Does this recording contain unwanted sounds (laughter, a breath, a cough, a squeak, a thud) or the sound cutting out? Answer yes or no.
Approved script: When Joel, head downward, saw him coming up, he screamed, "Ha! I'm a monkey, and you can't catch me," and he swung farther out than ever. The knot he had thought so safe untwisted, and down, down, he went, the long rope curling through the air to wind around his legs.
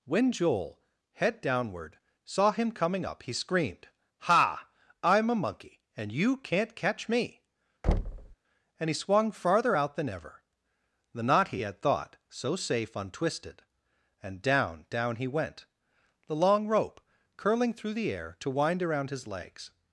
yes